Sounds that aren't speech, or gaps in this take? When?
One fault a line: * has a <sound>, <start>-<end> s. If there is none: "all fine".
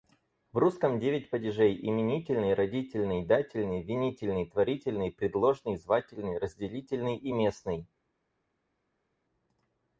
all fine